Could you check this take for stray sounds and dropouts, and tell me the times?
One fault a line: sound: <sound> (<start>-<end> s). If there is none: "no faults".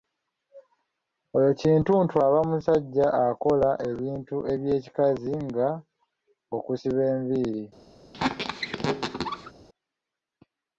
sound: squeak (8.1-9.5 s)